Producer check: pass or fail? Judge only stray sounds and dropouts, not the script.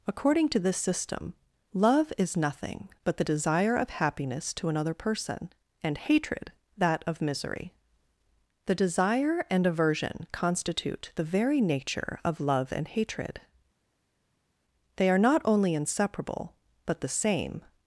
pass